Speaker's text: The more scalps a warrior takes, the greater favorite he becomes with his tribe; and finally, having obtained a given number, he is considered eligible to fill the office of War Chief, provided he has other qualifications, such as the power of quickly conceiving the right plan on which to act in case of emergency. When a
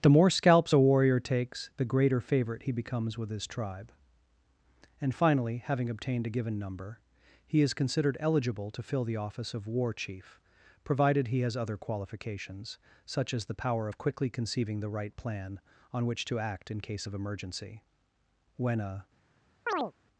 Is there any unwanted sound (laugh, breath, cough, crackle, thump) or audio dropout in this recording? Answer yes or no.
yes